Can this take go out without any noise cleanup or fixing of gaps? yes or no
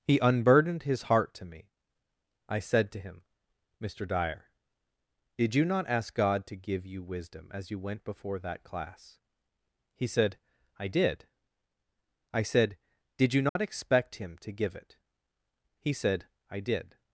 no